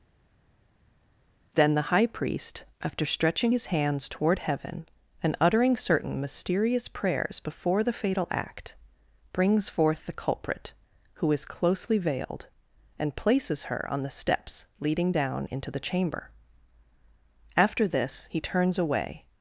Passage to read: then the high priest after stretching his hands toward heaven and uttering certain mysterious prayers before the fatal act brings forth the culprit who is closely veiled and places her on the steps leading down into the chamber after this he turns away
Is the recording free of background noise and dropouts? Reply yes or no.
yes